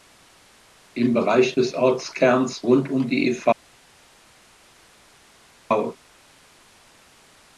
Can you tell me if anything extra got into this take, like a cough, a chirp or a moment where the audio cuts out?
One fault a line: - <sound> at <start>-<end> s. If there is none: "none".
none